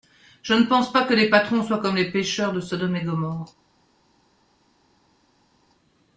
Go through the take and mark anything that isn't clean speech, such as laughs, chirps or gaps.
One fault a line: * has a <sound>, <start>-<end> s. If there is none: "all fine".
all fine